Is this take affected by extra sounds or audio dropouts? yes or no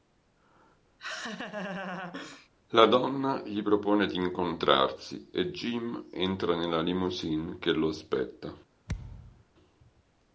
yes